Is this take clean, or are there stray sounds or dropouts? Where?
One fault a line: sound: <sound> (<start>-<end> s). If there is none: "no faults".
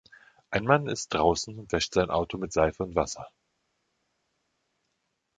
no faults